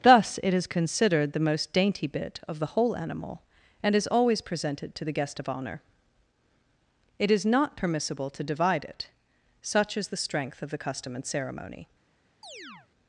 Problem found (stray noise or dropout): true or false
true